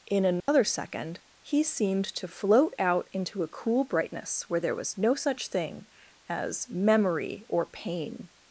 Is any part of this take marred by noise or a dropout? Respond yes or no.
yes